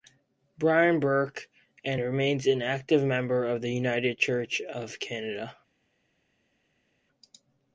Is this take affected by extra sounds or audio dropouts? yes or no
no